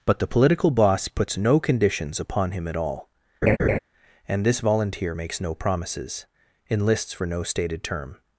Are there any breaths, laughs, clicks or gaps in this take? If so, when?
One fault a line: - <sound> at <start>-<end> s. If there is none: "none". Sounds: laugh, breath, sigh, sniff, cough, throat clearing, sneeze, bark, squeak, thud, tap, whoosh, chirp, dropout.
- laugh at 3.4-3.8 s